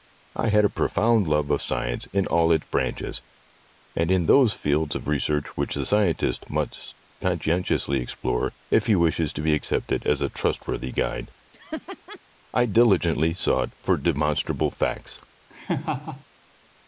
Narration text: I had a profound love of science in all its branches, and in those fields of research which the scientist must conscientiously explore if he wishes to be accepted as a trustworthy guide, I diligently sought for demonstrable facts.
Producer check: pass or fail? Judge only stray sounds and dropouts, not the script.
fail